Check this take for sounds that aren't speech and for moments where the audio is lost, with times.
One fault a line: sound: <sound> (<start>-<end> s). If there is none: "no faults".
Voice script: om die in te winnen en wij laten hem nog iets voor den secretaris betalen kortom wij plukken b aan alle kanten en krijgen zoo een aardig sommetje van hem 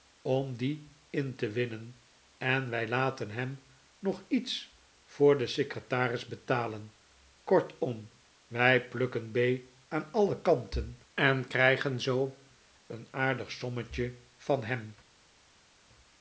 no faults